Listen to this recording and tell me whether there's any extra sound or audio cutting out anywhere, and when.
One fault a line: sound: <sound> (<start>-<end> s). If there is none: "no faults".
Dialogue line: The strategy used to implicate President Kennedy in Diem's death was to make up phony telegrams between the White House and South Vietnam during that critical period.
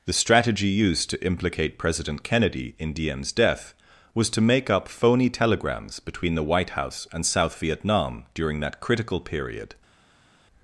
no faults